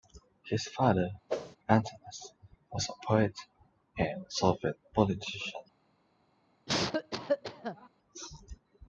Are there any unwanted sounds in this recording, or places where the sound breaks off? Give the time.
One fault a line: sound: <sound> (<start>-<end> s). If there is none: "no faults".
sound: whoosh (1.3-1.6 s)
sound: cough (6.7-7.9 s)